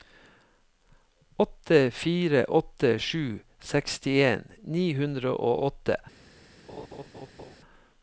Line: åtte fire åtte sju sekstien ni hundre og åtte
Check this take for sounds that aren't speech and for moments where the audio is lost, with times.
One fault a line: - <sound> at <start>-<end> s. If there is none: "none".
- laugh at 6.7-7.6 s